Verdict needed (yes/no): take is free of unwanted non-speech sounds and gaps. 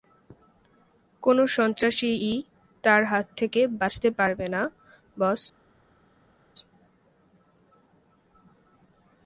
yes